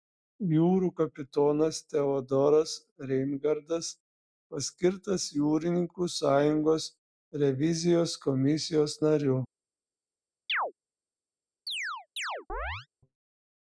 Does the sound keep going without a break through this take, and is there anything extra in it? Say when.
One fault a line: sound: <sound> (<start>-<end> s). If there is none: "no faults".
sound: chirp (10.5-10.7 s)
sound: chirp (11.7-12.9 s)